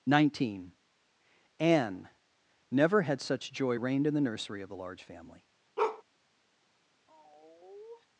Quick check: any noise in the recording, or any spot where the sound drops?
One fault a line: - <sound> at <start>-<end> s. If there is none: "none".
- bark at 5.8-6.0 s
- sigh at 7.1-8.1 s